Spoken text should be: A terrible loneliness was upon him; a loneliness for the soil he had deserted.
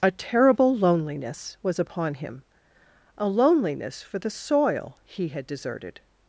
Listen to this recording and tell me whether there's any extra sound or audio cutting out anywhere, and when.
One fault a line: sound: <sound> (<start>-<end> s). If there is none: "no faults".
no faults